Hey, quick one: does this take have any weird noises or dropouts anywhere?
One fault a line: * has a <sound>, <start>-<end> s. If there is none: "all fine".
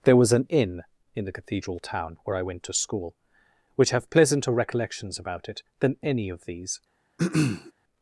* has a throat clearing, 7.2-7.7 s